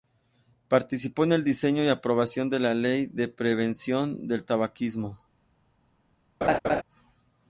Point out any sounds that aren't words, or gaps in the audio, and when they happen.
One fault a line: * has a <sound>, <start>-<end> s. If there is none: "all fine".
* has a laugh, 6.4-6.8 s